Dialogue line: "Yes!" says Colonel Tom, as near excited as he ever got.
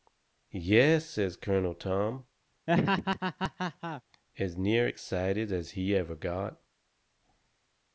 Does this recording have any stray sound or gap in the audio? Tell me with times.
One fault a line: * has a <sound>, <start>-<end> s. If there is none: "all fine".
* has a laugh, 2.7-4.0 s